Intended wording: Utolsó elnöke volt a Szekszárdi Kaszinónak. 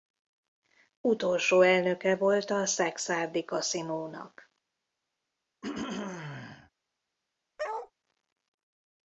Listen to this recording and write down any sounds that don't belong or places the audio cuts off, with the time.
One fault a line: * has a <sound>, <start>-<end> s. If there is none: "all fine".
* has a throat clearing, 5.6-6.7 s
* has a bark, 7.6-7.9 s